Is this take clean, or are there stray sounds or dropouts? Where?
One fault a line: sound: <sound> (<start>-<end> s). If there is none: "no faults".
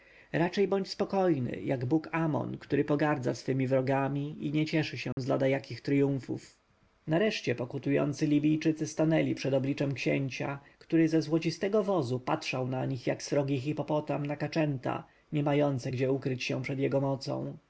sound: dropout (5.1-5.2 s)